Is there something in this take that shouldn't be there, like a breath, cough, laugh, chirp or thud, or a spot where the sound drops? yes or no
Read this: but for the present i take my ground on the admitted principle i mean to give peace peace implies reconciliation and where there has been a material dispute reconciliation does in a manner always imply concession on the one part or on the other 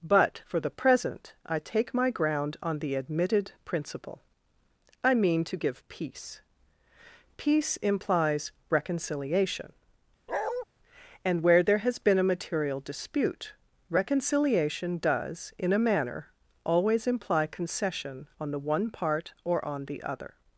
yes